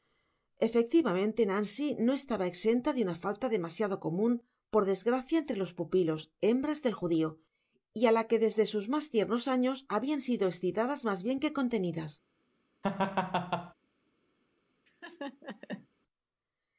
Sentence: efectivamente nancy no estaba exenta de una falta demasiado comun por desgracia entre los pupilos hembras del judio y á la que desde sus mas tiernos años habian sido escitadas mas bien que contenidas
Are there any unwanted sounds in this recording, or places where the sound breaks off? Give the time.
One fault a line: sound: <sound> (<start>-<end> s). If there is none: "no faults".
sound: laugh (12.8-13.7 s)
sound: laugh (14.9-15.9 s)